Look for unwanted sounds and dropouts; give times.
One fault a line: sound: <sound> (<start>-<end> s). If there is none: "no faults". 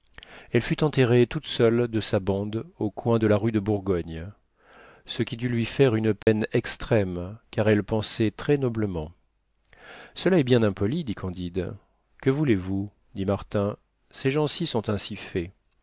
sound: dropout (6.2-6.3 s)